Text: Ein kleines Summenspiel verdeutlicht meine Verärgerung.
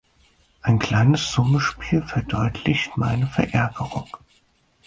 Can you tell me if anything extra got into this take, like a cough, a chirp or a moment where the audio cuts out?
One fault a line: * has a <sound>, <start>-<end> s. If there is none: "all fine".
all fine